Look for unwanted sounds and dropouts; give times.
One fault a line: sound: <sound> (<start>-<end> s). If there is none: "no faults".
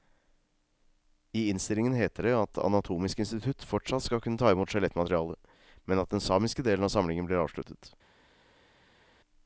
no faults